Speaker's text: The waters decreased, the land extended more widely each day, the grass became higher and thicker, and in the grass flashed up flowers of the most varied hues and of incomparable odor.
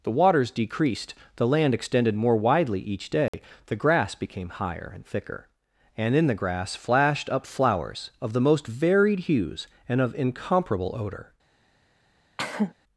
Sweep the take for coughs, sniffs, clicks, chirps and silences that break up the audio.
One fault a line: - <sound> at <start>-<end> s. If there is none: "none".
- dropout at 3.3-3.3 s
- cough at 12.4-12.7 s